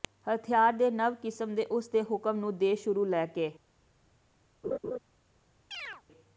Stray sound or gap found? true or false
true